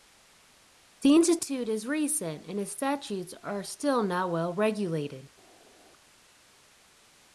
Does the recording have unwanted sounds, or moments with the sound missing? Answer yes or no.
no